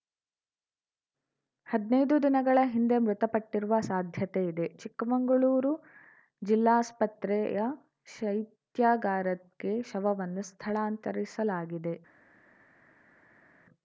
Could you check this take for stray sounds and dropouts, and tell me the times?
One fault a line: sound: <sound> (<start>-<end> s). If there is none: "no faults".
no faults